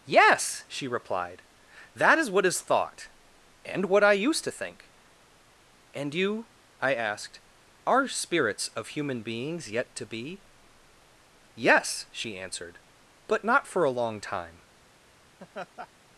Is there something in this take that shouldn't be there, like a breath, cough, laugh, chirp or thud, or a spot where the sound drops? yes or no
yes